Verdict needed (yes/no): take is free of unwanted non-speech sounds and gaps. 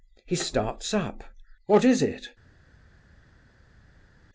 yes